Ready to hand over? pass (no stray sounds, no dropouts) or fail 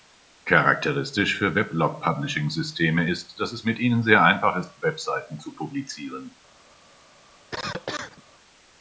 fail